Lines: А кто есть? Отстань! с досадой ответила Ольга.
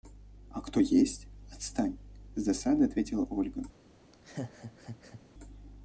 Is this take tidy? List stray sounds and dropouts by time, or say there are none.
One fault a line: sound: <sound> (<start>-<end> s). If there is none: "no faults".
sound: laugh (4.1-5.2 s)